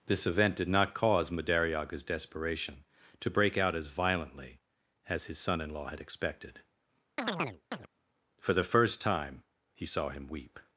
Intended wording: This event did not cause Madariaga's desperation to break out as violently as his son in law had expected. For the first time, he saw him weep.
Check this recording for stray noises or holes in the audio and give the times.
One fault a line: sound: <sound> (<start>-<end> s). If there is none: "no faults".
sound: chirp (7.2-7.9 s)